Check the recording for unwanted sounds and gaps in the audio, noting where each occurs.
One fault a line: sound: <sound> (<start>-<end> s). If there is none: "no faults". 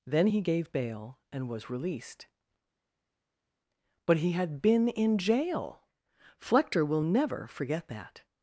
no faults